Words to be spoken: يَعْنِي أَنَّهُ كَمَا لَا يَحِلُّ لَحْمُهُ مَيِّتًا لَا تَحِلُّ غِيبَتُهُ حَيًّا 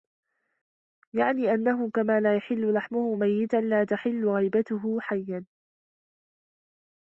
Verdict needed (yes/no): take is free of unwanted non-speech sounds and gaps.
yes